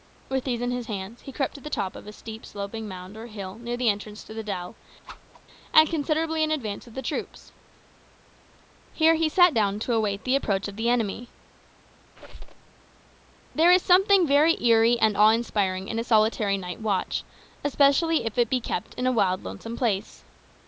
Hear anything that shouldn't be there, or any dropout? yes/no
yes